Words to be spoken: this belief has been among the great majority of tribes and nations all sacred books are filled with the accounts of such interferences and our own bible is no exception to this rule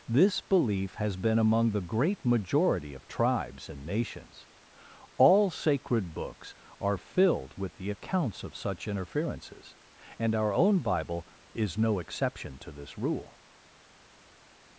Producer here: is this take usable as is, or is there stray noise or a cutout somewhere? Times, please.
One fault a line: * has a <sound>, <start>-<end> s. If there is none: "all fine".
all fine